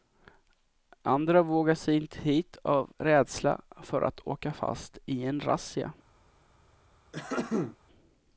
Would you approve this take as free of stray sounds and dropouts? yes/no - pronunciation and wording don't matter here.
no